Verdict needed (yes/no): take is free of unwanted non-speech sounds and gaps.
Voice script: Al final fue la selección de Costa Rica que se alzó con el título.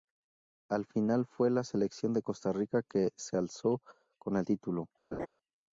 no